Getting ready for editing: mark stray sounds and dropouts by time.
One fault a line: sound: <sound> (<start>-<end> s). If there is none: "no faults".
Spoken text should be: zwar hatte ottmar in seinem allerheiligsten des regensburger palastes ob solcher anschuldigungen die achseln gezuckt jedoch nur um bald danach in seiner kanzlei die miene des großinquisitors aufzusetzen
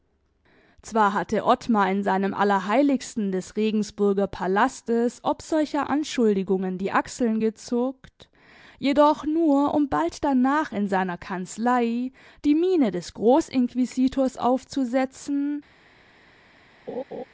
sound: laugh (16.9-17.2 s)